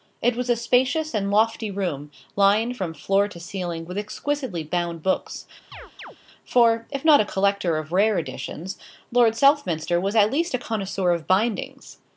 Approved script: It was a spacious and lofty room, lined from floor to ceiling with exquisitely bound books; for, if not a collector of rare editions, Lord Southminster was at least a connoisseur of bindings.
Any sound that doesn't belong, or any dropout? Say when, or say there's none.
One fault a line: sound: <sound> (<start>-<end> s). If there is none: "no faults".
sound: chirp (5.7-6.2 s)